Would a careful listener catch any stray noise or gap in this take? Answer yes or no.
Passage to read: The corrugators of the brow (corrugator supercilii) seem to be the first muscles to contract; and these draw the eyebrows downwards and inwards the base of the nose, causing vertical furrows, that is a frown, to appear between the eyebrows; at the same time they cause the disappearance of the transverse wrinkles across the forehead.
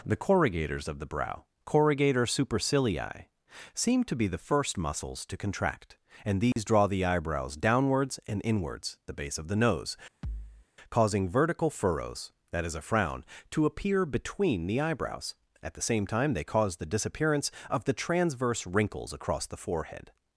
yes